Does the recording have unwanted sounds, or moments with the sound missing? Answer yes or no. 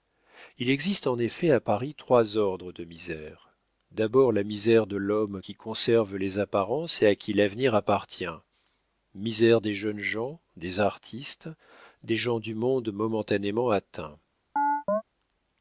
yes